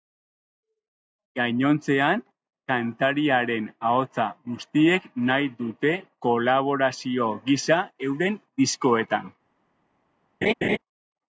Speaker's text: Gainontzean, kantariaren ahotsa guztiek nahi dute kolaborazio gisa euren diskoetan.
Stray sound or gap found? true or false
true